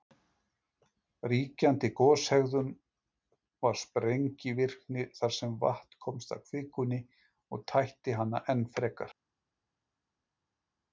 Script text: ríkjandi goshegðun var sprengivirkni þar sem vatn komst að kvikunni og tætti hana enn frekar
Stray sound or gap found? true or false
false